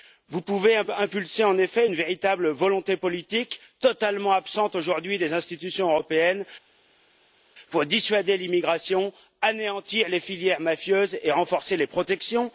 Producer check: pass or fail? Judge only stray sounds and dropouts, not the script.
pass